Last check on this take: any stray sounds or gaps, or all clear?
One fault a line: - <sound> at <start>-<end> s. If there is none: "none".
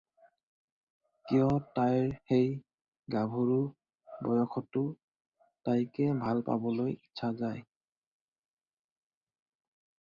none